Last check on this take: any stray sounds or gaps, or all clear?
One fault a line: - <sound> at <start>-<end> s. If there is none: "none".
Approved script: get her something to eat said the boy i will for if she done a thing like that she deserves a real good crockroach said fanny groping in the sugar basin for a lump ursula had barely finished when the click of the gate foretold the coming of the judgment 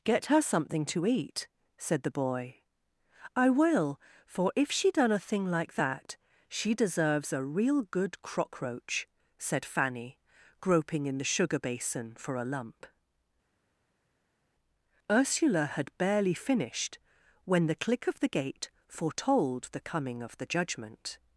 none